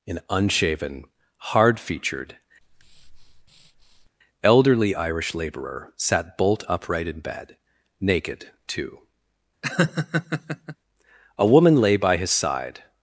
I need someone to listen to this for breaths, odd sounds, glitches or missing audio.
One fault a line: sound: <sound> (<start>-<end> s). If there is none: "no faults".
sound: breath (2.6-4.1 s)
sound: laugh (9.6-10.8 s)